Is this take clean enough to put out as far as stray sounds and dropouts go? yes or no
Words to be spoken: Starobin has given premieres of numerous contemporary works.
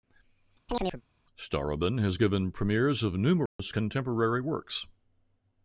no